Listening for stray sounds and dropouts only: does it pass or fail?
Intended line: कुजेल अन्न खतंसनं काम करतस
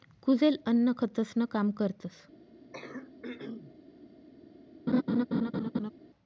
fail